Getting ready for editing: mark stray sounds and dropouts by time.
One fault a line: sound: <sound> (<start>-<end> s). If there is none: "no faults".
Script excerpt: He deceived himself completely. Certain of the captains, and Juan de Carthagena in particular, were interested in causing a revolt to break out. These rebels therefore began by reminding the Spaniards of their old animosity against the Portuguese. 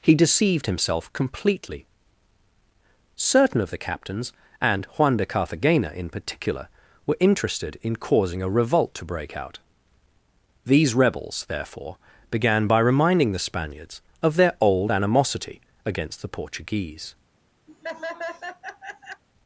sound: laugh (17.7-19.2 s)